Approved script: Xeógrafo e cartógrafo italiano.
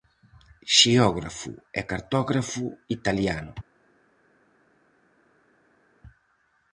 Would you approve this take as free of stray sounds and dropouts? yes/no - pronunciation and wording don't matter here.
yes